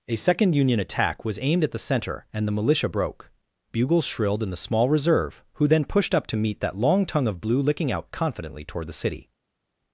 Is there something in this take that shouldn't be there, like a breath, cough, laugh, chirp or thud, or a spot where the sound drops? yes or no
no